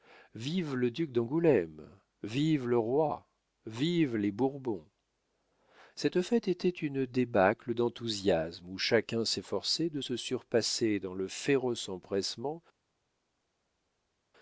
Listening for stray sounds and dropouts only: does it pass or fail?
pass